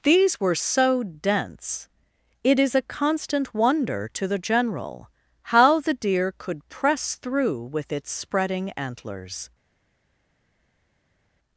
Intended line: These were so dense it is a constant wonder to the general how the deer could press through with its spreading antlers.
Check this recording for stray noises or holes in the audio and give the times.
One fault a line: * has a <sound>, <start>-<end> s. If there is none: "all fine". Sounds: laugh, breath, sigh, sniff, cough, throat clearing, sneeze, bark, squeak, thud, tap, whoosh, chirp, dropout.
all fine